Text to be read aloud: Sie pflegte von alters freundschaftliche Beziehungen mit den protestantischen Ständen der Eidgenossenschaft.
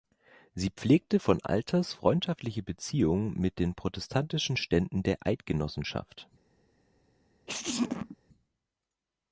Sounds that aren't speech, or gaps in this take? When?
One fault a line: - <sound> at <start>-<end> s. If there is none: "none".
- sneeze at 7.5-8.2 s